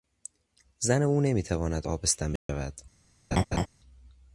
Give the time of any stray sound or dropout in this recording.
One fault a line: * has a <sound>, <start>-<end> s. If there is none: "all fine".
* has a dropout, 2.4-2.5 s
* has a laugh, 3.3-3.7 s